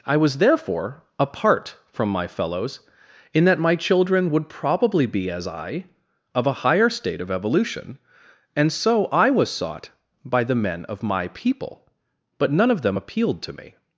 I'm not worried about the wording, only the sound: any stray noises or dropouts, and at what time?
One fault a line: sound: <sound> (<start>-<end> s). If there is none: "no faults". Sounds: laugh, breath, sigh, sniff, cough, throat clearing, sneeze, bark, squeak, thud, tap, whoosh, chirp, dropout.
no faults